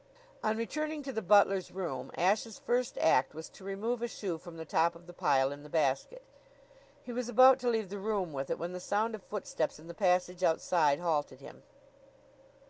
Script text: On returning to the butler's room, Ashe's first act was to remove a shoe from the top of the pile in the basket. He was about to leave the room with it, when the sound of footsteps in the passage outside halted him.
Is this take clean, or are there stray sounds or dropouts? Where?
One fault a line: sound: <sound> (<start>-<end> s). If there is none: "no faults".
no faults